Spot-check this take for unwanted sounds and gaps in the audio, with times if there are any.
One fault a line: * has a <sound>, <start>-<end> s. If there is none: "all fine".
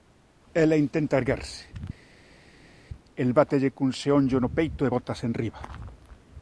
all fine